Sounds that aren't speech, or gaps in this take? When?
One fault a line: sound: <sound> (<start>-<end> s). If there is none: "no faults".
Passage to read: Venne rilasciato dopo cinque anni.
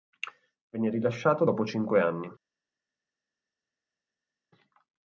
no faults